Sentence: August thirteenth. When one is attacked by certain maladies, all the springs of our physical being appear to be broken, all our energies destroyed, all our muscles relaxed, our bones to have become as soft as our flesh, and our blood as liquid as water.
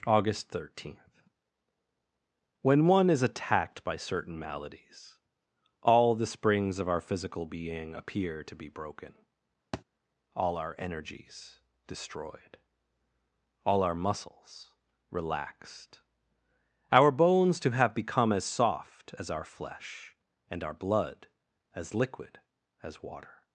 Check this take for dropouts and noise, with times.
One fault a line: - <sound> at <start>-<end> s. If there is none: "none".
- thud at 9.7-9.8 s